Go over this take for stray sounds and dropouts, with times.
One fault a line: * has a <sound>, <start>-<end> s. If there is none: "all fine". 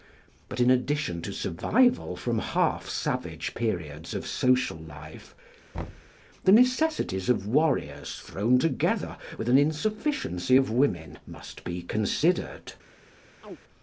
* has a thud, 5.7-6.1 s
* has a chirp, 13.4-13.6 s